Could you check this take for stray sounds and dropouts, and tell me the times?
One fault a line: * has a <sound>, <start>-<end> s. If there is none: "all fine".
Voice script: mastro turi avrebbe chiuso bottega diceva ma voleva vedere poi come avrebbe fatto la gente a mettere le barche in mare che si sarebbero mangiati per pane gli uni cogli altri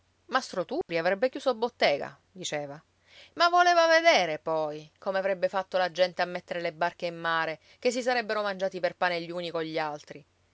* has a dropout, 0.8-0.9 s